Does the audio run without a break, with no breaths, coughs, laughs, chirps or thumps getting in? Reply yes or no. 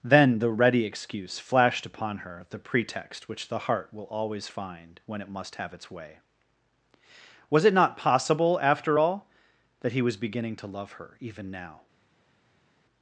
yes